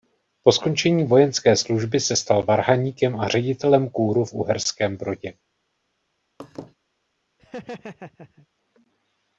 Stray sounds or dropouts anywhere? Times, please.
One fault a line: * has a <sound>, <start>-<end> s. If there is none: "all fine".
* has a laugh, 6.4-6.7 s
* has a laugh, 7.4-8.5 s